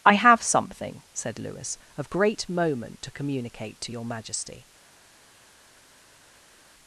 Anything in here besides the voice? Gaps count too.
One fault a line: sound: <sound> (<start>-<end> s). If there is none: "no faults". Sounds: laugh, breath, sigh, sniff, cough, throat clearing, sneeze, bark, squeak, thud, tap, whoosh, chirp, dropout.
no faults